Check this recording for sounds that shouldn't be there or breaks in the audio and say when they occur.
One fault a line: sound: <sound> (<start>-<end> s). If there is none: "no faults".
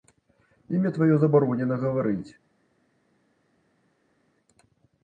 no faults